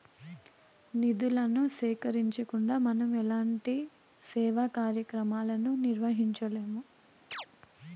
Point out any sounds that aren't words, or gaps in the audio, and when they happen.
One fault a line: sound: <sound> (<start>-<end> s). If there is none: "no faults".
sound: chirp (7.3-7.5 s)